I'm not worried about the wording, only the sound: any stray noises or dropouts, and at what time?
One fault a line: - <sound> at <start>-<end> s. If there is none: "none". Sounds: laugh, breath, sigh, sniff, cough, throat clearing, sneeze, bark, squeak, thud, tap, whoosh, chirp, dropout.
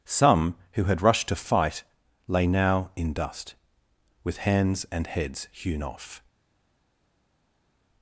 none